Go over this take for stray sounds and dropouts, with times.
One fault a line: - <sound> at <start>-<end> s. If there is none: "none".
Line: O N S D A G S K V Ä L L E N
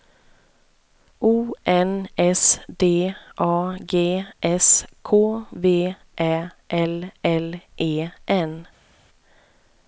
none